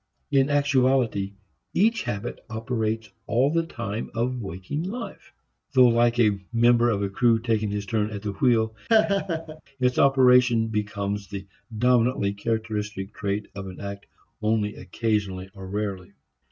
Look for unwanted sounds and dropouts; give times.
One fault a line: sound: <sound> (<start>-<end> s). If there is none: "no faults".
sound: laugh (8.9-9.6 s)